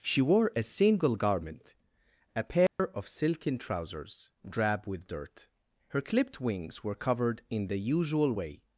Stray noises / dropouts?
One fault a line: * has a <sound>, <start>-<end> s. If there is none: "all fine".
* has a dropout, 2.7-2.8 s